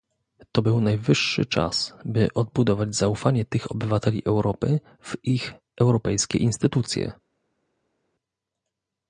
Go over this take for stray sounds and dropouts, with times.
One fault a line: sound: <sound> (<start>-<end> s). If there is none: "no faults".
no faults